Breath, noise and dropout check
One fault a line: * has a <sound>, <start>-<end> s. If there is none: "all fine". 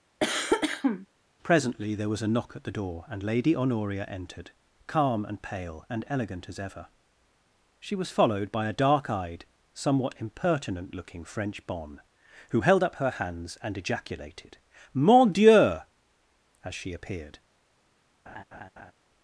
* has a cough, 0.2-1.1 s
* has a laugh, 18.3-18.9 s